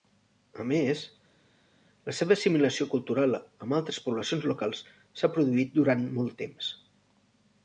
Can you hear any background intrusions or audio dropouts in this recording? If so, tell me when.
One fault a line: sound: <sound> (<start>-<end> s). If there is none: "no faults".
no faults